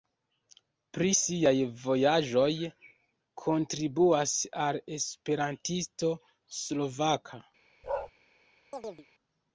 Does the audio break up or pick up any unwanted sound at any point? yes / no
yes